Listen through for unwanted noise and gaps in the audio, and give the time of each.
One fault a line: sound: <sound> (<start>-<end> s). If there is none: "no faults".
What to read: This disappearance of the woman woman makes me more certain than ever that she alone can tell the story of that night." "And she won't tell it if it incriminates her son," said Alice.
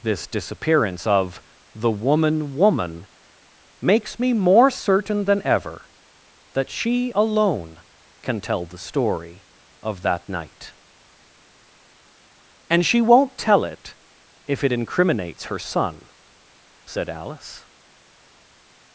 no faults